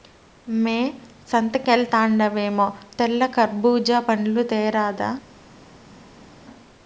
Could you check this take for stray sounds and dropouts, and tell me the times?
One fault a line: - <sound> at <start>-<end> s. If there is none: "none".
none